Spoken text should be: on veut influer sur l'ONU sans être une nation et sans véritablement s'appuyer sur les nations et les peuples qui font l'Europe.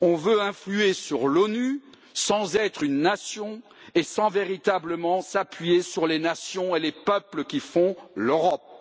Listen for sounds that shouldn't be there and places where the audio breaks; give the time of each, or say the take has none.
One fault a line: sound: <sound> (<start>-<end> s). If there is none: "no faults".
no faults